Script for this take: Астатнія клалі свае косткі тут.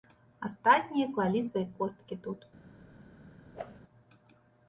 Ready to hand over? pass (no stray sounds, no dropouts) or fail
fail